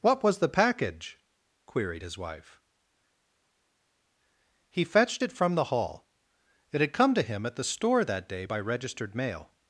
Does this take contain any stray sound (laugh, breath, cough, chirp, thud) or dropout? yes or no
no